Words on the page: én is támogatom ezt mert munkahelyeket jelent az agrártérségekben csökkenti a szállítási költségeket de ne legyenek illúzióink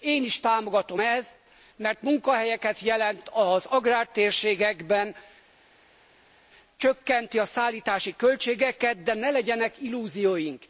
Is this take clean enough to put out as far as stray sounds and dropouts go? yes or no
yes